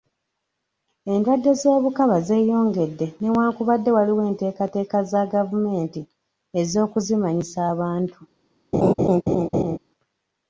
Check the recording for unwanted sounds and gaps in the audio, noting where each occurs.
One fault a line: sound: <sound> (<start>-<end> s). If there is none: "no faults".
sound: laugh (8.7-9.8 s)